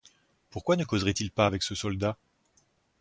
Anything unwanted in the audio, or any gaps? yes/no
no